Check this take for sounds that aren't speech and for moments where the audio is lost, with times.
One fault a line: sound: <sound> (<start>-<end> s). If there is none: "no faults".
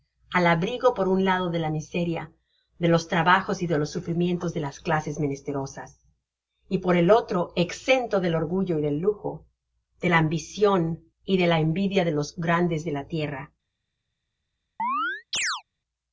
sound: chirp (14.8-15.6 s)